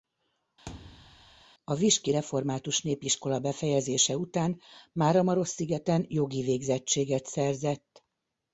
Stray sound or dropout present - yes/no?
yes